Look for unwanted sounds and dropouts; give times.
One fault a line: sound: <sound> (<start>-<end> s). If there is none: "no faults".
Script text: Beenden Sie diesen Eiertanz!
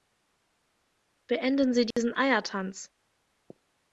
sound: dropout (1.9-2.0 s)